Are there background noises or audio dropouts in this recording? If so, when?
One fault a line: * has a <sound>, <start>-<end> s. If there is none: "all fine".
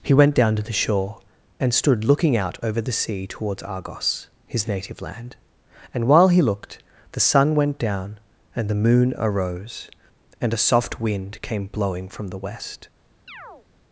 * has a chirp, 13.3-13.7 s